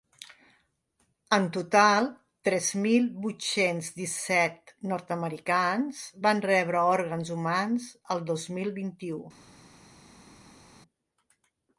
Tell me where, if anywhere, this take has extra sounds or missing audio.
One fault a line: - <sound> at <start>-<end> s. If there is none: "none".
none